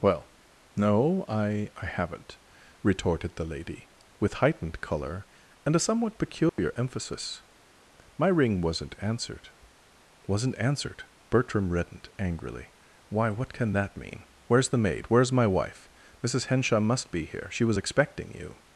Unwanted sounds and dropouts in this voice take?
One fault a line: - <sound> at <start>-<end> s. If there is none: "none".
- dropout at 6.5-6.6 s